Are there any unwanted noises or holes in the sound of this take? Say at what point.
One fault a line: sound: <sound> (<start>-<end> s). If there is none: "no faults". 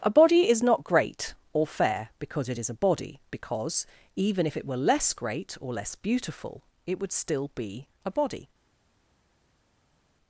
no faults